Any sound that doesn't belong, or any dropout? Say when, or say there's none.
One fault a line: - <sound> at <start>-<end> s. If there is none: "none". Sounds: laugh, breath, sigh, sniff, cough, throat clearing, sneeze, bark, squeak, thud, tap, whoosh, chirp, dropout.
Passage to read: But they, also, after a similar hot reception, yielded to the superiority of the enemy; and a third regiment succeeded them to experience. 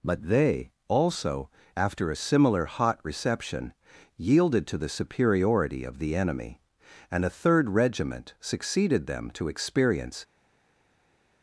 none